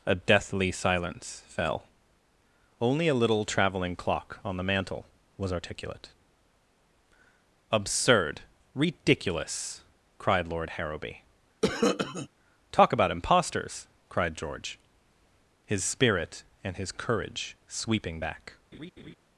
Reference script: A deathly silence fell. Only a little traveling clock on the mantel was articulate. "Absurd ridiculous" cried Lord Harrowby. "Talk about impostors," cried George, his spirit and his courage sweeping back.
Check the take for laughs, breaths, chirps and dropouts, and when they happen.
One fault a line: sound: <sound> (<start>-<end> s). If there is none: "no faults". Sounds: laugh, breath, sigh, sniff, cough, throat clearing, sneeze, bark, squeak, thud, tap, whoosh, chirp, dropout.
sound: cough (11.6-12.3 s)
sound: laugh (18.7-19.2 s)